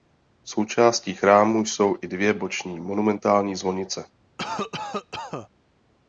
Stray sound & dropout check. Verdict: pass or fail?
fail